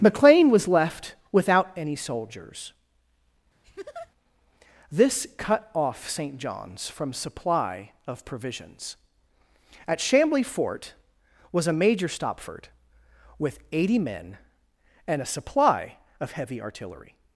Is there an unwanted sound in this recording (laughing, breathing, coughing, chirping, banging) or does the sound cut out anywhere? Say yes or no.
yes